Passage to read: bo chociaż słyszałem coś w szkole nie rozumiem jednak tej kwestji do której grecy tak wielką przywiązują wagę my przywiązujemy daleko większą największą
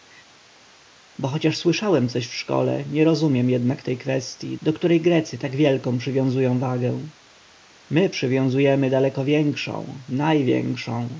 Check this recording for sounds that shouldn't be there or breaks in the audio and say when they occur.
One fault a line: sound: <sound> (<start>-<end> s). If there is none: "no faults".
no faults